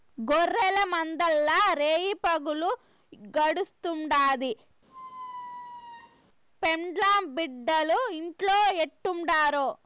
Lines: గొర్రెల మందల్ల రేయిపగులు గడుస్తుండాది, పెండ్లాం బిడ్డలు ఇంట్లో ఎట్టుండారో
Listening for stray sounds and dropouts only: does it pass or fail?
fail